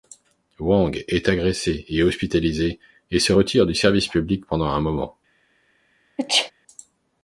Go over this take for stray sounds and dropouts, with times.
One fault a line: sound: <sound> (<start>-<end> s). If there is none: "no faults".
sound: sneeze (6.2-6.5 s)